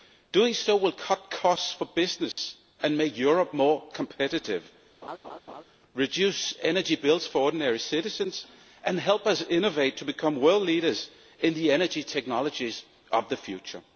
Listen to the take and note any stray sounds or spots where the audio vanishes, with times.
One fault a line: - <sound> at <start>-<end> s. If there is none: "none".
- dropout at 2.3-2.4 s
- laugh at 5.0-5.6 s